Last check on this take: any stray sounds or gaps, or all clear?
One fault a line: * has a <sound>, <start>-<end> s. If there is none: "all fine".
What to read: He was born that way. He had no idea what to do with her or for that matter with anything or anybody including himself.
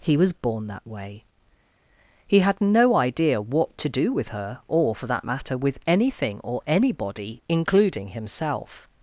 all fine